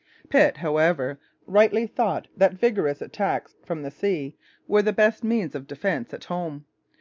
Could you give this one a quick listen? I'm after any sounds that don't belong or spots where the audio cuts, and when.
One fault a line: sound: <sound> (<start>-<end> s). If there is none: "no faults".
no faults